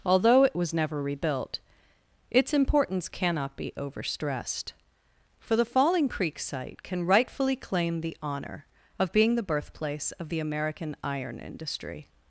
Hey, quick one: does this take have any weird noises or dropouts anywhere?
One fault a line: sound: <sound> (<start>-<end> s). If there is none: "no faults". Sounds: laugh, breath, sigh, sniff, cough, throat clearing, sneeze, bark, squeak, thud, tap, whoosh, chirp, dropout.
no faults